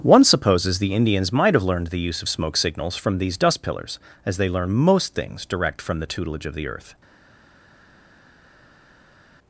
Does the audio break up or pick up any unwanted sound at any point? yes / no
no